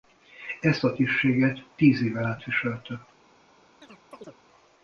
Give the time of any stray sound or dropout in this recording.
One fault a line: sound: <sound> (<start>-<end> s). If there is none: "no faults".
sound: chirp (3.8-4.4 s)